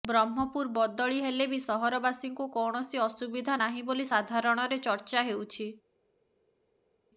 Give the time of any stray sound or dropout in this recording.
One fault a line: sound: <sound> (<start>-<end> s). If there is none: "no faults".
no faults